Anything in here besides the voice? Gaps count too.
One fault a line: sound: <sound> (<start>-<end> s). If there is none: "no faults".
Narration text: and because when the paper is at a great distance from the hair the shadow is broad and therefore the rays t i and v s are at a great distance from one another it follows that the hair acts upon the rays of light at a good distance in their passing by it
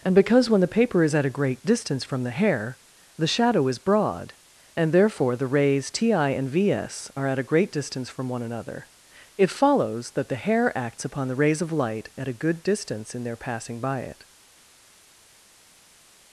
no faults